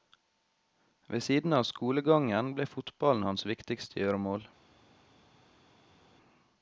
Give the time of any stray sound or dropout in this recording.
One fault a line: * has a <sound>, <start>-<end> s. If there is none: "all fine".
all fine